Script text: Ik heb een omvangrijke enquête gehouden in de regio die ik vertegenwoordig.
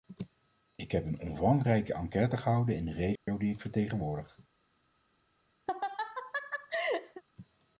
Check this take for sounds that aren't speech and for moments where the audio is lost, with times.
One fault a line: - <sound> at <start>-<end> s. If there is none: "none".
- dropout at 3.2-3.3 s
- laugh at 5.7-7.2 s